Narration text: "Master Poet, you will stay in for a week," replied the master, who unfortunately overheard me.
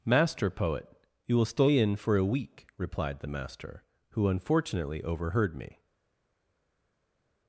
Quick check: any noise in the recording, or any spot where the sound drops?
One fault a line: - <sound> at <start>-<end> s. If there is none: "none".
none